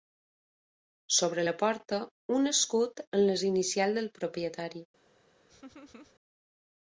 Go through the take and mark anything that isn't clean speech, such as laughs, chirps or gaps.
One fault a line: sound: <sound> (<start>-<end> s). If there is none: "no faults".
sound: laugh (5.5-6.1 s)